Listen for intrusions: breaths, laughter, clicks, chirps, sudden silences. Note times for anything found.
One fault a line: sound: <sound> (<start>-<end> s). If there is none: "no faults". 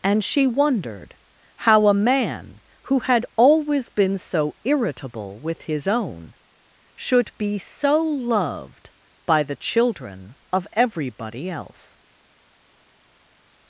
no faults